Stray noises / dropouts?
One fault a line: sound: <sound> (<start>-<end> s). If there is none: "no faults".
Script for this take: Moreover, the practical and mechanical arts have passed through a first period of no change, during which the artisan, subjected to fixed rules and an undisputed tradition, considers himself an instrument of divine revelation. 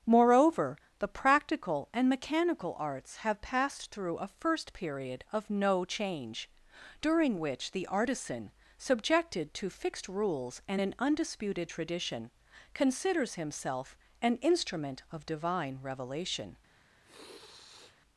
sound: sniff (17.0-18.0 s)